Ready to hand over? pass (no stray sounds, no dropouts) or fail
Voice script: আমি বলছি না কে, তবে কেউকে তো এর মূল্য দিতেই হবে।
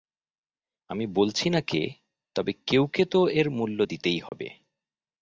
fail